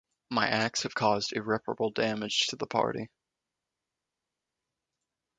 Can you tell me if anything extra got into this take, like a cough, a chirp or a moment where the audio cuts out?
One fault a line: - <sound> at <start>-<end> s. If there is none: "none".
none